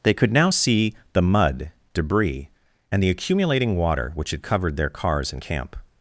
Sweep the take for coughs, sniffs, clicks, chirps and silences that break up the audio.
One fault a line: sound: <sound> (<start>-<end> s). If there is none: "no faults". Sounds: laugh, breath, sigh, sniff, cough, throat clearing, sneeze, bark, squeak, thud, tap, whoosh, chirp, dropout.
no faults